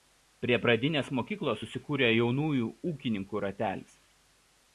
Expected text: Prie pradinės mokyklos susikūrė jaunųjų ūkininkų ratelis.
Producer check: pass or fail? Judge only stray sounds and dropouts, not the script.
pass